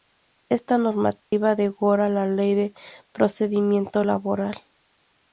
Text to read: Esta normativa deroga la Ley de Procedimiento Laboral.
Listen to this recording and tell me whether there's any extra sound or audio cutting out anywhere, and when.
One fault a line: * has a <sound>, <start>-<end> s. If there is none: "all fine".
* has a dropout, 1.2-1.3 s